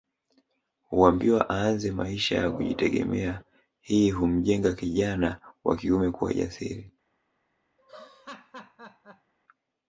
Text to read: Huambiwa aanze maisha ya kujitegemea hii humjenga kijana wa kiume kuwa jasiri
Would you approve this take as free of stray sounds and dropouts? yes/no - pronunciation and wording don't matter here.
no